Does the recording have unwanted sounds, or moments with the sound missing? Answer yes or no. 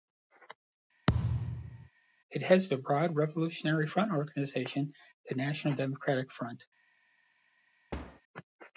yes